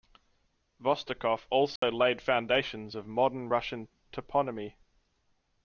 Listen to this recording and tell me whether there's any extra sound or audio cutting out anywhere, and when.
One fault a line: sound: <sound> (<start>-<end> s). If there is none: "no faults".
sound: dropout (1.8-1.8 s)